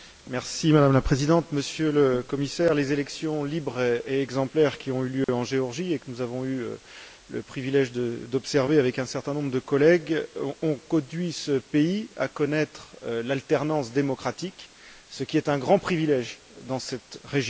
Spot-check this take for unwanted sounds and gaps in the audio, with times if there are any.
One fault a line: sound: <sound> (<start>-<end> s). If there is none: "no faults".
sound: dropout (5.2-5.3 s)